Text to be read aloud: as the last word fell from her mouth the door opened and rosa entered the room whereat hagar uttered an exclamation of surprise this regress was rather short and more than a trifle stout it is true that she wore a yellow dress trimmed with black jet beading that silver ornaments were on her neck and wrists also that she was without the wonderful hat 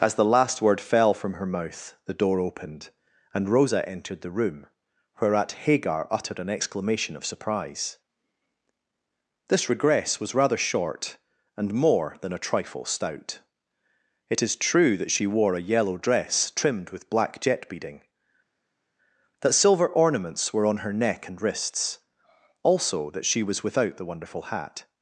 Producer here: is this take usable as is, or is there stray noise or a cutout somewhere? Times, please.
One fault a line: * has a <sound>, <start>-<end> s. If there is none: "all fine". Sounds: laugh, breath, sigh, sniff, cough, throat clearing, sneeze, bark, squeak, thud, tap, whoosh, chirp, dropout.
all fine